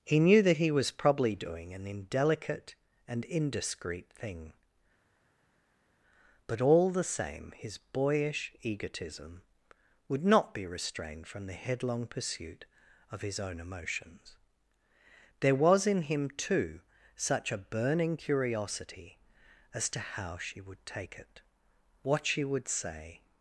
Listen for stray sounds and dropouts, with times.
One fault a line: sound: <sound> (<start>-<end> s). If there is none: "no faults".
no faults